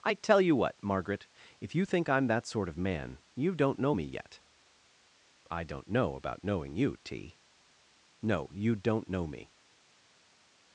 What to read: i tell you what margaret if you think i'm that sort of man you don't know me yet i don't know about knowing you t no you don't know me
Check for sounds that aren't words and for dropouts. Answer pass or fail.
pass